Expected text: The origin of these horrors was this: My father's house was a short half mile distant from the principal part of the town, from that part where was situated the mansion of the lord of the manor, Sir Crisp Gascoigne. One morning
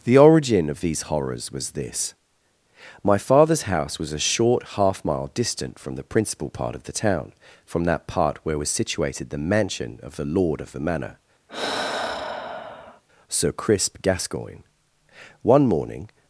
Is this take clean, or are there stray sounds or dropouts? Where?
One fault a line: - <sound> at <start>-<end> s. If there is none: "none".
- sigh at 11.5-13.0 s